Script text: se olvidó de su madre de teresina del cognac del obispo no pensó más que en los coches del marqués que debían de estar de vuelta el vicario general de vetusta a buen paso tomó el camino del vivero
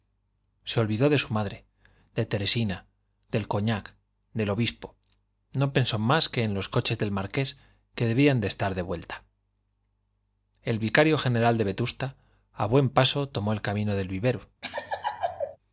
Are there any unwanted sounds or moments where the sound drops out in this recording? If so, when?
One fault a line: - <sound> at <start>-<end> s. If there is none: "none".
- laugh at 14.6-15.6 s